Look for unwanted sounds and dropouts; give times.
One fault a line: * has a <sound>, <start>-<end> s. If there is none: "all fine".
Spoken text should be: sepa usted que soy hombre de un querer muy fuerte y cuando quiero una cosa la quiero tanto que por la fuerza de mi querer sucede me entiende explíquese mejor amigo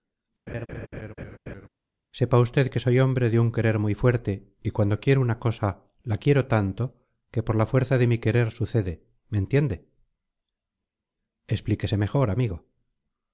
* has a laugh, 0.5-1.7 s